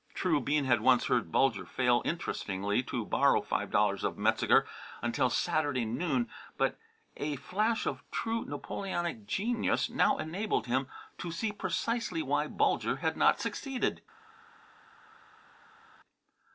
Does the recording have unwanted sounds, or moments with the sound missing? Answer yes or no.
no